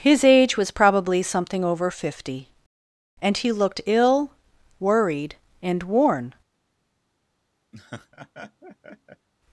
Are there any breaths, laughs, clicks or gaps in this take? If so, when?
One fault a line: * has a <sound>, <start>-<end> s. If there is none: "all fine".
* has a laugh, 7.7-9.3 s